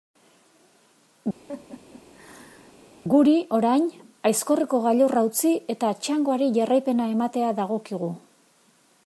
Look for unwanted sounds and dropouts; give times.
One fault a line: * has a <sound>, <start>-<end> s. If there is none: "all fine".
* has a laugh, 1.5-2.8 s